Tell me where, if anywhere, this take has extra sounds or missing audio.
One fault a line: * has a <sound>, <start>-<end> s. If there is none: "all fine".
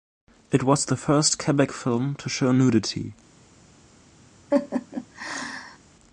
* has a laugh, 4.5-5.8 s